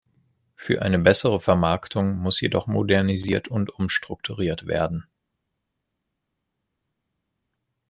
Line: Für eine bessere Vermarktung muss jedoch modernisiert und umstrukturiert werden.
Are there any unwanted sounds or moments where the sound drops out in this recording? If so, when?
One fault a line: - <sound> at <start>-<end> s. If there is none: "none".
none